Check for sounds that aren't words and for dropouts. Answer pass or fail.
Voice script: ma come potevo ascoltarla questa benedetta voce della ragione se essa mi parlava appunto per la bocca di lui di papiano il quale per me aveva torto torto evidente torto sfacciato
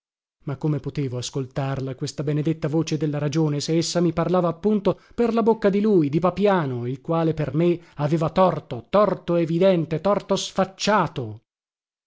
pass